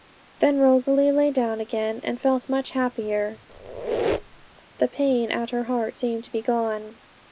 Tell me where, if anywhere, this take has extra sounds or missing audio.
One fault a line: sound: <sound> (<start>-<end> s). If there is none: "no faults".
sound: squeak (3.5-4.6 s)